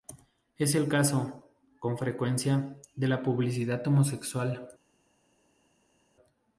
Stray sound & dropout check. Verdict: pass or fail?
pass